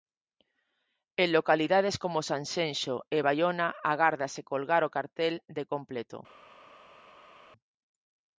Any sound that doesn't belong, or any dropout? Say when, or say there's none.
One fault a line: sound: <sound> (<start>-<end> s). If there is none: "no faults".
no faults